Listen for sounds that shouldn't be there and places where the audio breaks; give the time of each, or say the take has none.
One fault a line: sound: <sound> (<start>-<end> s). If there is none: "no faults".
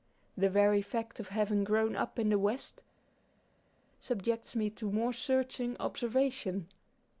no faults